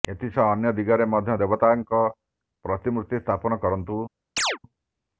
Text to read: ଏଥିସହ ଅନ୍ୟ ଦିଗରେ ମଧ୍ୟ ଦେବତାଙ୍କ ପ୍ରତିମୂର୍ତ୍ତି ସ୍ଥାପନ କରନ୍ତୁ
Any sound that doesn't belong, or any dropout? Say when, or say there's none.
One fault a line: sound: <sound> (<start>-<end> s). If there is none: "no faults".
sound: chirp (4.4-4.6 s)